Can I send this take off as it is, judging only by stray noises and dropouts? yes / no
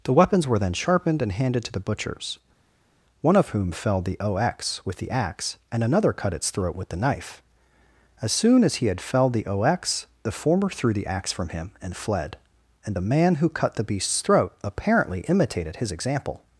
yes